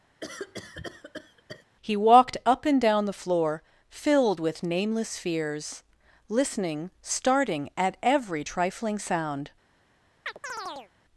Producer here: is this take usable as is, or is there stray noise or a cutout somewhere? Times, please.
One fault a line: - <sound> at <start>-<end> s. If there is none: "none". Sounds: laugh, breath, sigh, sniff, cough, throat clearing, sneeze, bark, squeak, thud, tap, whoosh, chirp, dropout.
- cough at 0.2-1.7 s
- chirp at 10.3-10.9 s